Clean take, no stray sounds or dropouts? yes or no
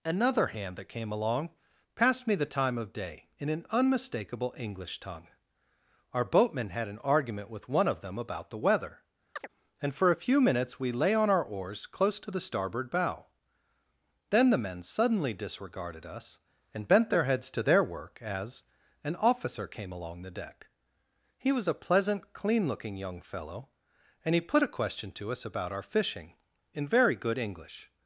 no